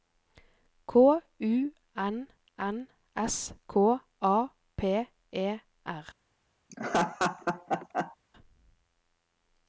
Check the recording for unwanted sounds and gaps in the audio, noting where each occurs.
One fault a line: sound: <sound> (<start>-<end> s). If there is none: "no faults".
sound: laugh (6.7-8.2 s)